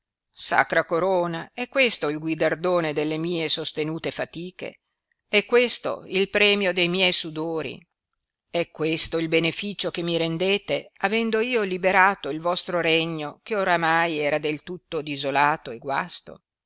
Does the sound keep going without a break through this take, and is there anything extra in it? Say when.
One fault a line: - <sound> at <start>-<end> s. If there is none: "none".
none